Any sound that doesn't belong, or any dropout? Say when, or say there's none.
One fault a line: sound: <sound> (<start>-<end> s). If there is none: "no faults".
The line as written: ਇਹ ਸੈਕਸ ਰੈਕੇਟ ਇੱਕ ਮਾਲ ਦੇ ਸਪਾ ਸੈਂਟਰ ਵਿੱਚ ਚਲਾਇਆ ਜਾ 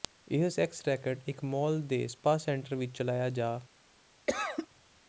sound: cough (4.3-4.7 s)